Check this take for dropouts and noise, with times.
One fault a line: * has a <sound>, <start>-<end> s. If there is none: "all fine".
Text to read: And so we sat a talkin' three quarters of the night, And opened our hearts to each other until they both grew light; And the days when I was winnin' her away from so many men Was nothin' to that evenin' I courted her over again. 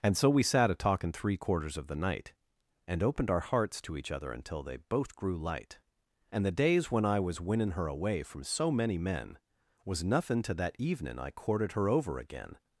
all fine